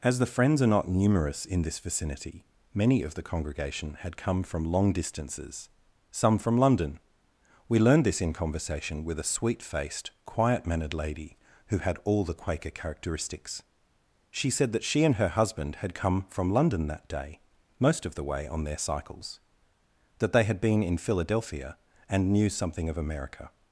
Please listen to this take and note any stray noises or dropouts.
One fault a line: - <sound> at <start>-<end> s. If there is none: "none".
none